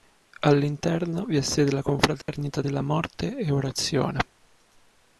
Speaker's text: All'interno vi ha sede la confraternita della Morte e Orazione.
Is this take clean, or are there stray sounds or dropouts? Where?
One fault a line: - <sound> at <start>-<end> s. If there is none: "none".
- dropout at 2.2-2.3 s